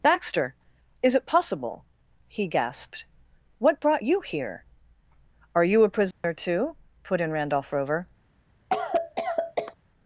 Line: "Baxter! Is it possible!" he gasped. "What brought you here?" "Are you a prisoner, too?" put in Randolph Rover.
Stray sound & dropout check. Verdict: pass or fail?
fail